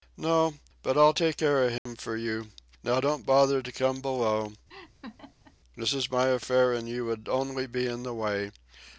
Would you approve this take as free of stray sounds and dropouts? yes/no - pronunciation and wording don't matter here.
no